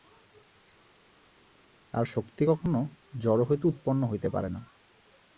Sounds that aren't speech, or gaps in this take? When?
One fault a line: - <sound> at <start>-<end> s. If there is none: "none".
none